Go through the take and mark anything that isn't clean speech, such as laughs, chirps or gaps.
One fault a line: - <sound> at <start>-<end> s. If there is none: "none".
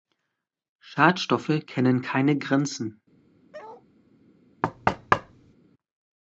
- bark at 3.5-3.8 s
- thud at 4.6-5.5 s